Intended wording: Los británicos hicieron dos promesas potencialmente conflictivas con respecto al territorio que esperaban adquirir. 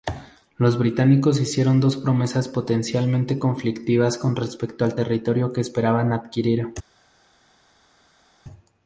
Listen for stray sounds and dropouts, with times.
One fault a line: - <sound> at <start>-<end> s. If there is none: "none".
none